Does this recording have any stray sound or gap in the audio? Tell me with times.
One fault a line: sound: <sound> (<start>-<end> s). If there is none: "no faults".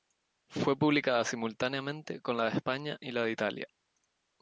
no faults